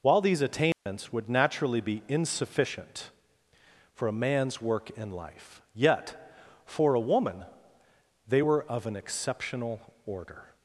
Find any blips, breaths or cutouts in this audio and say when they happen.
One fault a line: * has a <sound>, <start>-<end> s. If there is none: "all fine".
* has a dropout, 0.7-0.9 s